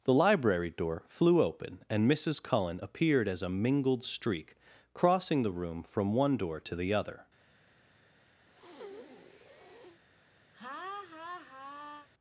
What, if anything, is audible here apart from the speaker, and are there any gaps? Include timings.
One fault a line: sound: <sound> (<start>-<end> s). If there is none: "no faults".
sound: breath (8.5-10.0 s)
sound: laugh (10.5-12.1 s)